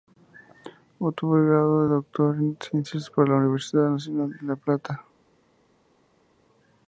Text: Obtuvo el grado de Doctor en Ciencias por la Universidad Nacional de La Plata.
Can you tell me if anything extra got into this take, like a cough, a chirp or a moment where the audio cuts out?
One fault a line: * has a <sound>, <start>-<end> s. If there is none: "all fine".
all fine